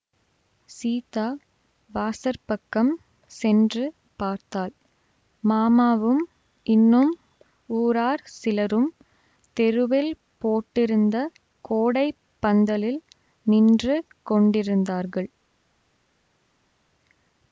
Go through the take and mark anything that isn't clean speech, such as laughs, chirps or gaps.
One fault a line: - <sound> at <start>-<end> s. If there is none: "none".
none